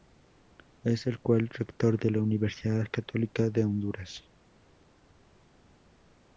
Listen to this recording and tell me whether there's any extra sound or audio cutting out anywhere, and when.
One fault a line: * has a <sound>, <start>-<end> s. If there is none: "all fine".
all fine